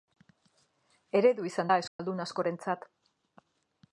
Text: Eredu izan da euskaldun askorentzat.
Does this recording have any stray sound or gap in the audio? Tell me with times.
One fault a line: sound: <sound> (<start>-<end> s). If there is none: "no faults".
sound: dropout (1.9-2.0 s)